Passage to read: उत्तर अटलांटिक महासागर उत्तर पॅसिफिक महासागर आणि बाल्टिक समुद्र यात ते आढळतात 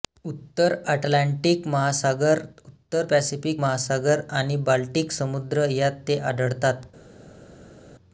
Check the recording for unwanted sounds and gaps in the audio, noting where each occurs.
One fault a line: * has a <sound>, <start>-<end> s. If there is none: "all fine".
all fine